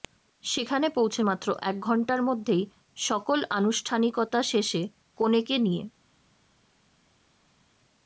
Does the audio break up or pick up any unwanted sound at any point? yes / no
no